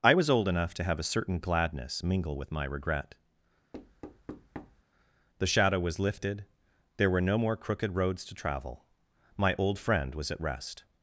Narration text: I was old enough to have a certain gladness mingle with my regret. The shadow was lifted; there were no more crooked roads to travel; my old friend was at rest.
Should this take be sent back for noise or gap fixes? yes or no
yes